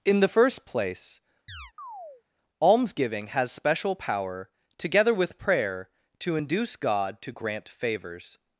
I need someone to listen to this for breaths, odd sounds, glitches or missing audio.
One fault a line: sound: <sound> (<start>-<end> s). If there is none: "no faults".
sound: chirp (1.5-2.2 s)